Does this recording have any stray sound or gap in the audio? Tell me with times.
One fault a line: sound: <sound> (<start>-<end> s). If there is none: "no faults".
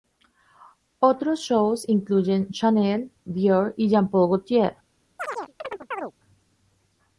sound: chirp (5.2-6.1 s)